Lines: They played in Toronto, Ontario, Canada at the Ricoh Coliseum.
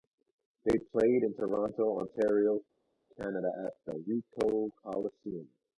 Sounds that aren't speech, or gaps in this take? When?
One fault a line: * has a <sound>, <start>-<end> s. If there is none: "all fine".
all fine